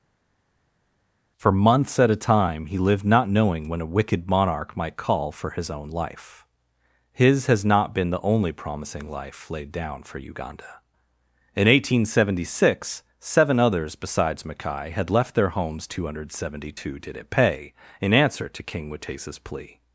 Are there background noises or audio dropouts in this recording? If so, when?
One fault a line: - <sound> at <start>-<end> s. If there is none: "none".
none